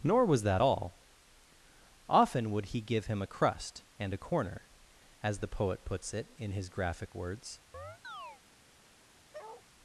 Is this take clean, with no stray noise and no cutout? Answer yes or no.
no